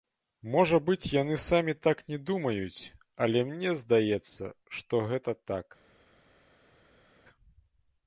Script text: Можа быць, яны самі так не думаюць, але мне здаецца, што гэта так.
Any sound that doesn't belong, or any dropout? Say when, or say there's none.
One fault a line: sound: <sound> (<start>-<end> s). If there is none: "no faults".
no faults